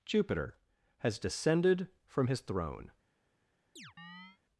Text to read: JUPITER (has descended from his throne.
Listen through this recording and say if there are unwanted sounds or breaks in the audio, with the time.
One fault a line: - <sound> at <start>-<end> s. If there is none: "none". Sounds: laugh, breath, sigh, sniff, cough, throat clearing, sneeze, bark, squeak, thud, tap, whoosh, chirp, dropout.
- chirp at 3.8-4.4 s